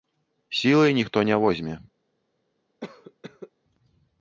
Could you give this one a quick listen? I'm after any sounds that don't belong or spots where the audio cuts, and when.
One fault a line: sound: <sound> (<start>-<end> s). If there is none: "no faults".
sound: cough (2.8-3.5 s)